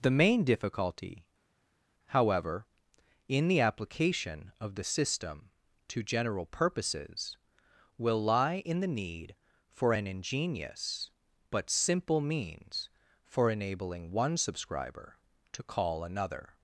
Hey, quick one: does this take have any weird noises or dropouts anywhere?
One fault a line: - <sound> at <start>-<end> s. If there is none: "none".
none